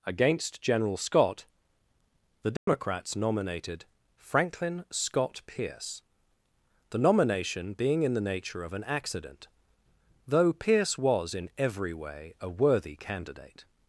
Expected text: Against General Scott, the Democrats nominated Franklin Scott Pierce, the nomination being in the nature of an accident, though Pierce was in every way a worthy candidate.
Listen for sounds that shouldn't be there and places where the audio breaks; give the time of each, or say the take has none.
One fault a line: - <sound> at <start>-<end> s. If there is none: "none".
- dropout at 2.6-2.7 s